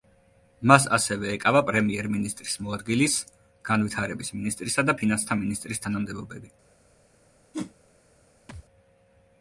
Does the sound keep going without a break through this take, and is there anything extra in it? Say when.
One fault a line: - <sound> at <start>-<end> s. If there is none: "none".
- whoosh at 7.5-7.7 s
- thud at 8.5-8.6 s